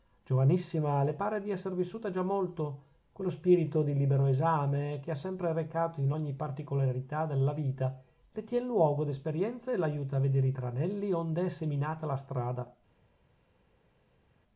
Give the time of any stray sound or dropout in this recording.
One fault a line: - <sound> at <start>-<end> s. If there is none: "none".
none